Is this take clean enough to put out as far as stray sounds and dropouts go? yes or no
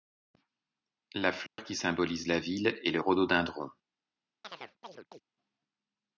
no